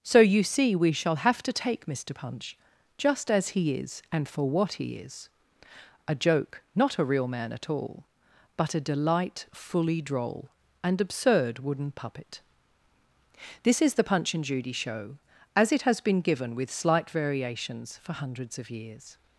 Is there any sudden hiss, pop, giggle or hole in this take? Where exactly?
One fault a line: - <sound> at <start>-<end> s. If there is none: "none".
none